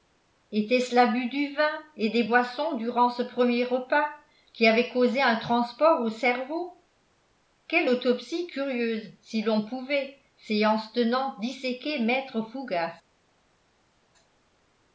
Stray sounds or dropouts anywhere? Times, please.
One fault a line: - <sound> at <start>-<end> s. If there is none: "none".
none